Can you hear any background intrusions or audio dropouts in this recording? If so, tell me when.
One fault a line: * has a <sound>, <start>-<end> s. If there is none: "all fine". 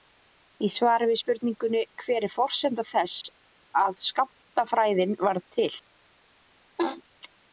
* has a laugh, 6.8-7.0 s